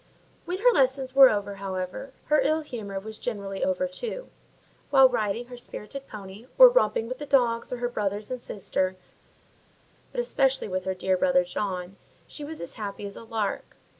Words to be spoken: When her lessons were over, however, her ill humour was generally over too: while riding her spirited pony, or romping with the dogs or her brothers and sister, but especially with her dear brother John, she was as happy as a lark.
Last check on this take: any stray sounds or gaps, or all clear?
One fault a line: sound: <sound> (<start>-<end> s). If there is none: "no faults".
no faults